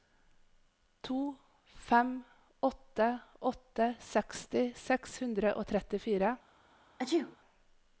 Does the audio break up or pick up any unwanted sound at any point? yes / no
yes